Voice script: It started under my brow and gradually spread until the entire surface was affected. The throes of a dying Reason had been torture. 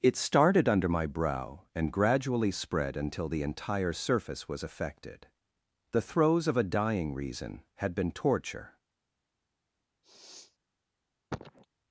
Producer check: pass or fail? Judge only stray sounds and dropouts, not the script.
fail